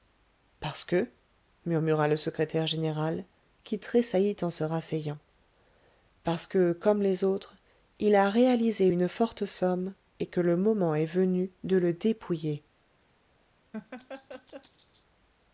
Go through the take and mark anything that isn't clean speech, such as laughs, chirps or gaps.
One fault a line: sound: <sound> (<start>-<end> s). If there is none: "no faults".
sound: laugh (13.7-15.1 s)